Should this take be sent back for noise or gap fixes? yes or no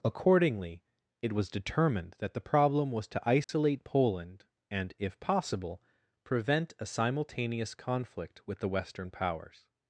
yes